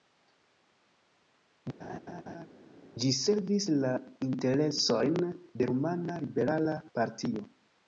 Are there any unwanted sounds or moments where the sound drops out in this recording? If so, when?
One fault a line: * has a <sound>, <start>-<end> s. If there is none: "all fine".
* has a laugh, 1.8-2.5 s